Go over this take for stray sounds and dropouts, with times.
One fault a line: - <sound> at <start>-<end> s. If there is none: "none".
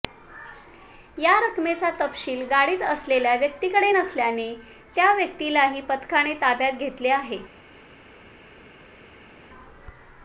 none